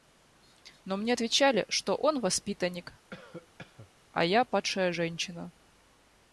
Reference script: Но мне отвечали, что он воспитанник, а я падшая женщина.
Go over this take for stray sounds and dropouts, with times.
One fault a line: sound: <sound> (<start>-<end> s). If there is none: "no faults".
sound: cough (3.1-3.9 s)